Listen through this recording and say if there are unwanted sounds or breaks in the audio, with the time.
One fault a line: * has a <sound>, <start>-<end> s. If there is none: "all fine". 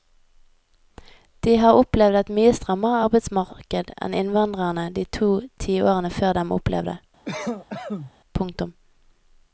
* has a cough, 7.2-8.1 s